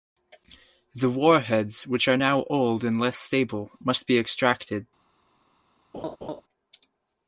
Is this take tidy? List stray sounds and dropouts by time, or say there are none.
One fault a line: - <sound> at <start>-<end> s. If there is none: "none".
- laugh at 5.9-6.4 s